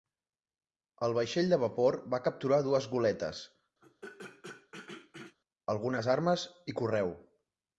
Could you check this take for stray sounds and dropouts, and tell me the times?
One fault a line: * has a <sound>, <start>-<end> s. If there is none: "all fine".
* has a throat clearing, 3.8-5.4 s